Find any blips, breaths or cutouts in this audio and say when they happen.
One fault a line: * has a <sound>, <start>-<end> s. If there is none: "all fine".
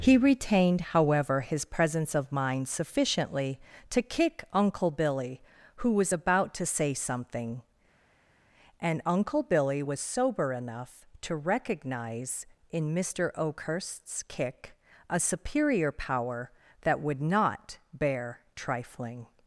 all fine